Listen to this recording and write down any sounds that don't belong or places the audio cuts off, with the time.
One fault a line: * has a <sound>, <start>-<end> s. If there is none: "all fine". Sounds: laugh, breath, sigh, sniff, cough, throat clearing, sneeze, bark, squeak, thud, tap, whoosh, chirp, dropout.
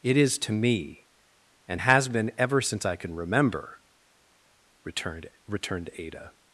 all fine